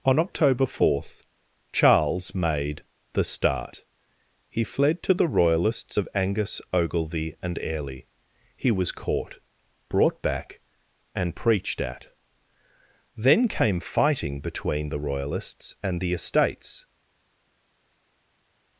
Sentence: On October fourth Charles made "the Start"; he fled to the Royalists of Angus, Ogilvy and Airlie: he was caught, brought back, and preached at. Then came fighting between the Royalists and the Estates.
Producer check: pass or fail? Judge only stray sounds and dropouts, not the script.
pass